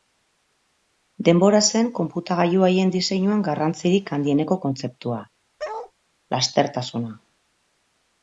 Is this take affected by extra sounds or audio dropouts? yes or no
yes